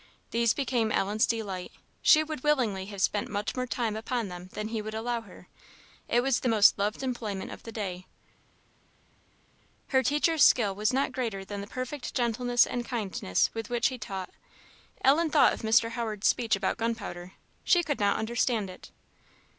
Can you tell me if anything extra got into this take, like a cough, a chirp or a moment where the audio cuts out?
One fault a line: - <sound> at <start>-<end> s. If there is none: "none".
none